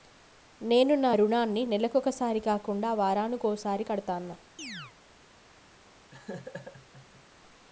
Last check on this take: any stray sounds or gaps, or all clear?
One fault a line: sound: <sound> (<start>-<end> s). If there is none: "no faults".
sound: chirp (4.6-4.9 s)
sound: laugh (6.1-7.2 s)